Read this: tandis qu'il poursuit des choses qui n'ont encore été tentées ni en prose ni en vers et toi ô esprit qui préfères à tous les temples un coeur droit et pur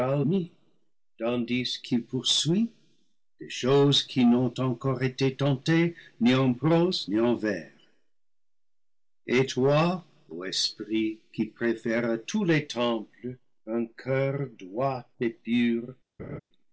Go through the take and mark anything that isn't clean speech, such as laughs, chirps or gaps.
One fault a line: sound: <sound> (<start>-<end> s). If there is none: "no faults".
sound: laugh (16.2-16.4 s)